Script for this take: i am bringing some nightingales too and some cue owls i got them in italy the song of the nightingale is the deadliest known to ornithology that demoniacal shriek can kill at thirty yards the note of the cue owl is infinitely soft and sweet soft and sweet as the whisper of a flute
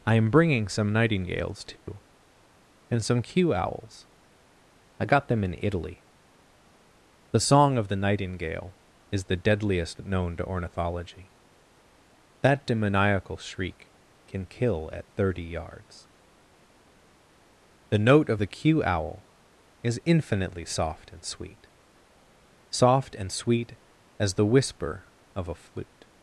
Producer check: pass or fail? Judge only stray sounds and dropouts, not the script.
fail